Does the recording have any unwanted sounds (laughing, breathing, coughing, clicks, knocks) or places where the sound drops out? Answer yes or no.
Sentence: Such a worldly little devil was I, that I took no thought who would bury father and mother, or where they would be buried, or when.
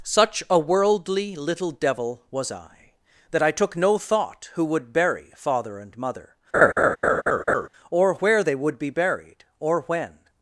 yes